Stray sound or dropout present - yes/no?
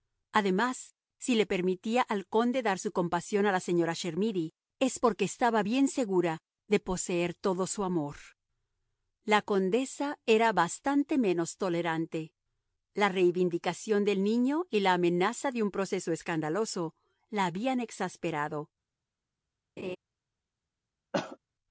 yes